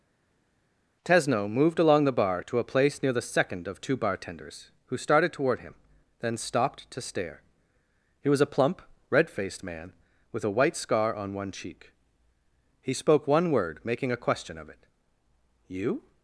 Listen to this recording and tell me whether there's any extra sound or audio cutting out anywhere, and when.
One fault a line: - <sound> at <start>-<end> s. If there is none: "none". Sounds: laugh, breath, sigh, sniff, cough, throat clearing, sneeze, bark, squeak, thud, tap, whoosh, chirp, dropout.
none